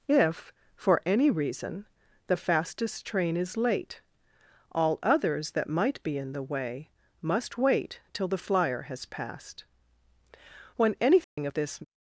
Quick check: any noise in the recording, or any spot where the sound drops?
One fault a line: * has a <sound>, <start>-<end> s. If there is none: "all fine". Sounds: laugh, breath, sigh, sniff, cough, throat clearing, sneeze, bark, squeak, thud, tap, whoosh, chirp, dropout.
* has a dropout, 11.2-11.4 s